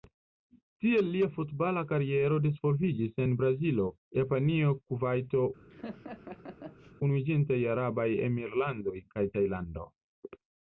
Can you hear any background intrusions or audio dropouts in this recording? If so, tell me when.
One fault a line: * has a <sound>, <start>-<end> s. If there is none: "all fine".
* has a laugh, 5.7-6.9 s